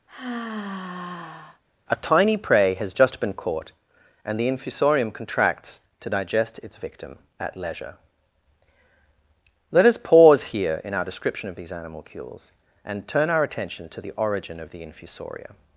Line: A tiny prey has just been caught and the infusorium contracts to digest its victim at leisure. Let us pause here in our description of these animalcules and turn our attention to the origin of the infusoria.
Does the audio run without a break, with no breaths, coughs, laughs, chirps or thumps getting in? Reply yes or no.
no